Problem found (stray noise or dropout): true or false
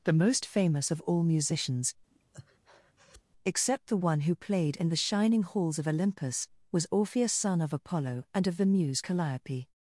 true